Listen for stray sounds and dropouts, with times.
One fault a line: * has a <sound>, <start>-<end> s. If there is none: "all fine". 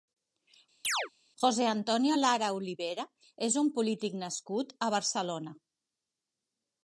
* has a chirp, 0.8-1.1 s